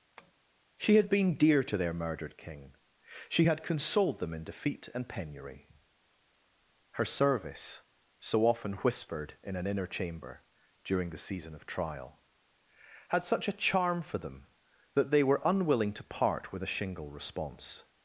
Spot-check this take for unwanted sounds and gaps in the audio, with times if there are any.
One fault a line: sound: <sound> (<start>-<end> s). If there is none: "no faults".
sound: tap (0.2-0.3 s)